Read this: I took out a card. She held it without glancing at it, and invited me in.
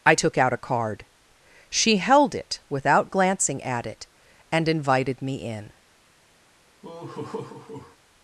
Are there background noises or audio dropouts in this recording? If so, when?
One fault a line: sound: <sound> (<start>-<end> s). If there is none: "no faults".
sound: laugh (6.8-8.0 s)